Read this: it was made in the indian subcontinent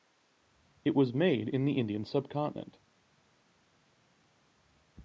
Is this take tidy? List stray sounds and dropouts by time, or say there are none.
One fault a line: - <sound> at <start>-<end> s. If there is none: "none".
none